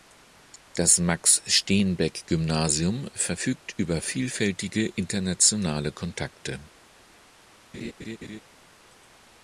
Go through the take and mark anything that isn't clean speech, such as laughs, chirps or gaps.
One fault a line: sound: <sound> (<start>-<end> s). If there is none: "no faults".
sound: laugh (7.7-8.4 s)